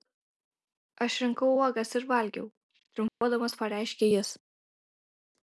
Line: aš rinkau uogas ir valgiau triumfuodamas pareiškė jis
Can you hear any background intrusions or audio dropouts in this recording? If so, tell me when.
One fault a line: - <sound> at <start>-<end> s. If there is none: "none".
- dropout at 3.1-3.2 s